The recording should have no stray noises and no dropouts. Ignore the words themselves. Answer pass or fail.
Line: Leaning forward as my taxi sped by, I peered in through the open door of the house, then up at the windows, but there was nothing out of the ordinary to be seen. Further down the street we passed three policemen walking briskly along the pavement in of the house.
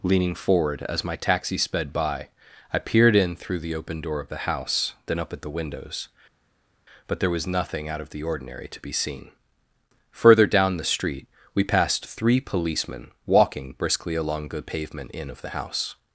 pass